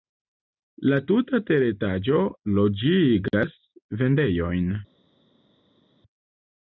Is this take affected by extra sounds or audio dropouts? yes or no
no